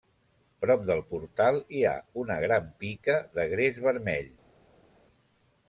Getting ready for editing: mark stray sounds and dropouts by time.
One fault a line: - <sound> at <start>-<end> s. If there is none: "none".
none